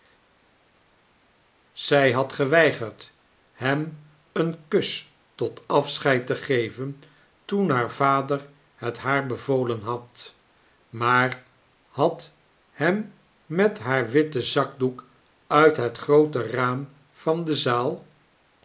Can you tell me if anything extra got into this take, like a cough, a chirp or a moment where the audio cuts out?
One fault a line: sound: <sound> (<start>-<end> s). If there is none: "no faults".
no faults